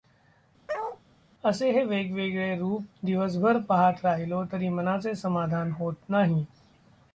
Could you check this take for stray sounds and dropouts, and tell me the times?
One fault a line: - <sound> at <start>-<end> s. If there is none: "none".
- bark at 0.7-1.0 s